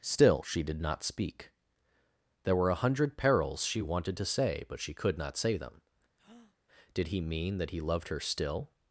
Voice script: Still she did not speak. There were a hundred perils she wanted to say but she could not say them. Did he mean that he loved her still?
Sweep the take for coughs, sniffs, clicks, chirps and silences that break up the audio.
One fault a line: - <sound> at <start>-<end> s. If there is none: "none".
- breath at 6.2-6.6 s